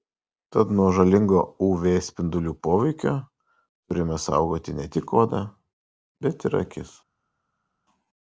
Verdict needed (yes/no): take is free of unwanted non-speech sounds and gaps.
yes